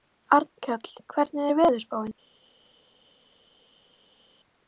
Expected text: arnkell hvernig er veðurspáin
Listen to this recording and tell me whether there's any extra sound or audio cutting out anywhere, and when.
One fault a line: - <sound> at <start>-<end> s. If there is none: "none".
none